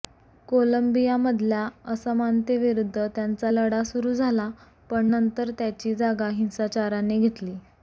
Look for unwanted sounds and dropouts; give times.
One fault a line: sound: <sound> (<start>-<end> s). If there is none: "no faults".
no faults